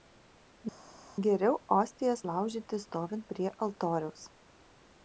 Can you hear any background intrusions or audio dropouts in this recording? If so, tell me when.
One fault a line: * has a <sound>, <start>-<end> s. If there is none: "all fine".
all fine